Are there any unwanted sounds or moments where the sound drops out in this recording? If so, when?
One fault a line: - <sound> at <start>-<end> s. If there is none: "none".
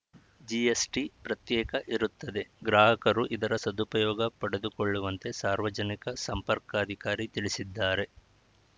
none